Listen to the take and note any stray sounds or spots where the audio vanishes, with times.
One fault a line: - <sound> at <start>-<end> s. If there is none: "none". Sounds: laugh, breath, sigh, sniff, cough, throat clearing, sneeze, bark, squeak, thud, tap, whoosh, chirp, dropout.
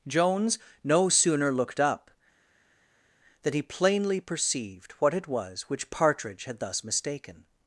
none